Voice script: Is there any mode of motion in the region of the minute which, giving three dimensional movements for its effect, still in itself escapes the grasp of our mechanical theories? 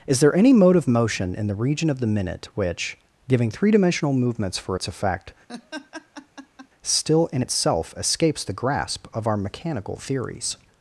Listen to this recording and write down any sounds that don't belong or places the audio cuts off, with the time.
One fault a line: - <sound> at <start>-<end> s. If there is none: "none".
- laugh at 5.5-6.7 s